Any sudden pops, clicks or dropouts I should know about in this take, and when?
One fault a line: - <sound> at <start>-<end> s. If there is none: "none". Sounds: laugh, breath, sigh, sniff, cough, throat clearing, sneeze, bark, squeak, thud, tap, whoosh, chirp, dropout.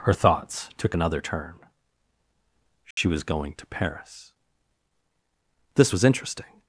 - dropout at 2.9-3.0 s